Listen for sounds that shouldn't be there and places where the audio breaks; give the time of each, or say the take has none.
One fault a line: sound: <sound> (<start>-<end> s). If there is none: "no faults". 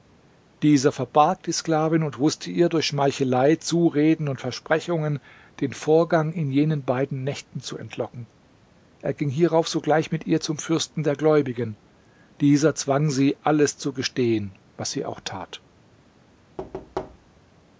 sound: thud (16.6-17.4 s)